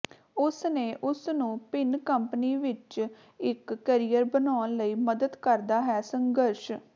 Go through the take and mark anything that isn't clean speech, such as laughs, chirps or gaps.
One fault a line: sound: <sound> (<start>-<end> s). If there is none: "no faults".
no faults